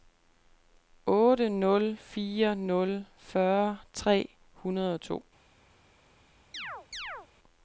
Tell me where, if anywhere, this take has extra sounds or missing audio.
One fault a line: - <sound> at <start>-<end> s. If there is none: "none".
- chirp at 6.5-7.3 s